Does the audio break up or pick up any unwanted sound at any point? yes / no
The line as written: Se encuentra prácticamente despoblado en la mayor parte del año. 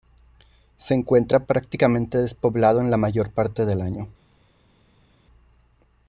no